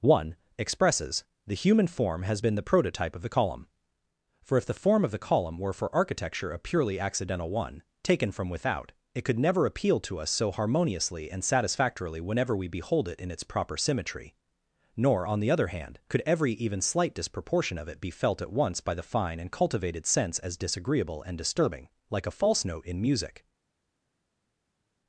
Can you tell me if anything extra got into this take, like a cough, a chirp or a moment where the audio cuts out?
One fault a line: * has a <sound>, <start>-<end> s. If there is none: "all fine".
all fine